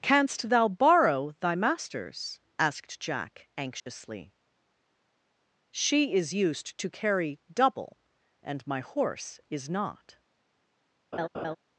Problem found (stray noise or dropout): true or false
true